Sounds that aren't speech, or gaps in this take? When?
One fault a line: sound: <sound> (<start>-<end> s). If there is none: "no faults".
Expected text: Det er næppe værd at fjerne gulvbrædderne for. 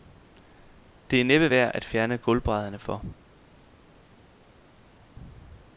no faults